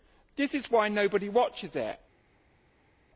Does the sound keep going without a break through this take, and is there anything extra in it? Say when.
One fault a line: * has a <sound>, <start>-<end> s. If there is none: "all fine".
all fine